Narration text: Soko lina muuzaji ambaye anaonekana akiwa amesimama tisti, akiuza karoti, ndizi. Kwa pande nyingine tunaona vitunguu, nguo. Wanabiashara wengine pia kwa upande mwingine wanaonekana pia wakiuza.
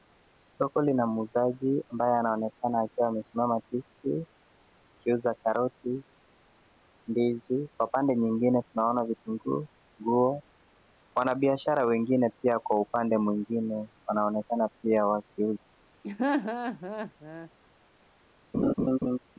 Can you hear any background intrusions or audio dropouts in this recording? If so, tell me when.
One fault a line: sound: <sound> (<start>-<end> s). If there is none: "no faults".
sound: laugh (16.0-17.5 s)
sound: laugh (18.5-19.2 s)